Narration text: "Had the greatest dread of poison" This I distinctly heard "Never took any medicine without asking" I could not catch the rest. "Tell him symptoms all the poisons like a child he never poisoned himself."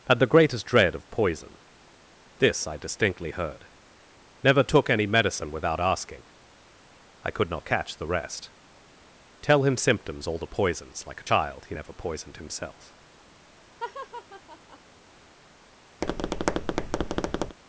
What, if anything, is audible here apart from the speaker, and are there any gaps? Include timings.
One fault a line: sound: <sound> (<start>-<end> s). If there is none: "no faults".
sound: laugh (13.8-14.8 s)
sound: tap (16.0-17.6 s)